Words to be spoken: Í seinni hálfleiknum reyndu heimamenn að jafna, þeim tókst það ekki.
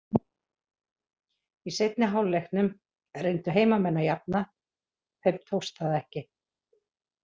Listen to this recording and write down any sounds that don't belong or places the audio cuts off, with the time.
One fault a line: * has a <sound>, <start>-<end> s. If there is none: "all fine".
all fine